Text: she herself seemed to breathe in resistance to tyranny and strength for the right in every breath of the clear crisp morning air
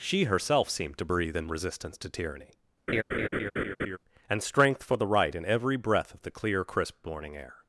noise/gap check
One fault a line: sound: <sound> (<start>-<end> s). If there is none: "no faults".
sound: laugh (2.9-4.0 s)